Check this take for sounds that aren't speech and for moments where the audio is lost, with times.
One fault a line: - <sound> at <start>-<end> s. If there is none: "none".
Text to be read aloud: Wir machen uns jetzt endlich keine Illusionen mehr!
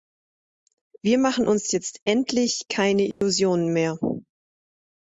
- dropout at 3.1-3.2 s